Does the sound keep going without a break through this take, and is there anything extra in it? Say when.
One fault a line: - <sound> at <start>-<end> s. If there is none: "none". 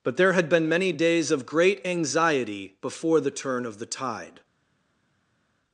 none